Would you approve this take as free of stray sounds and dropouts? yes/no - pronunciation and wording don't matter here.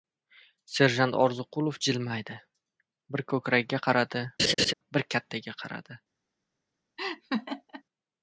no